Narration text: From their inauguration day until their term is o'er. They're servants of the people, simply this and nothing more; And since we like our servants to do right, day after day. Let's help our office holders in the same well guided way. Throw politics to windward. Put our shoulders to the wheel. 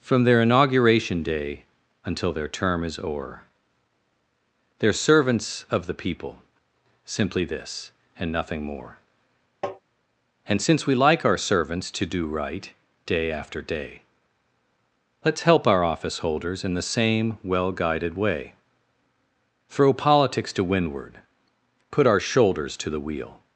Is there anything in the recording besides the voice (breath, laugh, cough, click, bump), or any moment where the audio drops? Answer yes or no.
yes